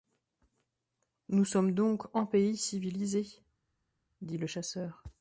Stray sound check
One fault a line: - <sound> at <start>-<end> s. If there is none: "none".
none